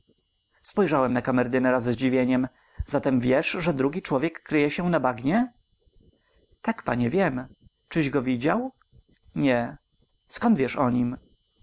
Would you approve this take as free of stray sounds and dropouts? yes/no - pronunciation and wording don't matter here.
yes